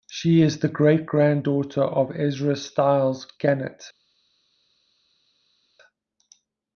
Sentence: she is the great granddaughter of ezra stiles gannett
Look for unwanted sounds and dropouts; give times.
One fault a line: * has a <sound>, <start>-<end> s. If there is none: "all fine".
all fine